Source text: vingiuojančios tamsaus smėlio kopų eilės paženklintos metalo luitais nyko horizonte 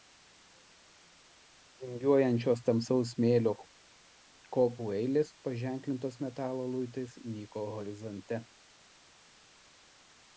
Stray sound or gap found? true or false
false